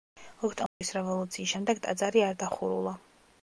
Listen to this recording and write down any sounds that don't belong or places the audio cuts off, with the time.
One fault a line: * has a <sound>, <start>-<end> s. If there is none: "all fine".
* has a dropout, 0.7-0.8 s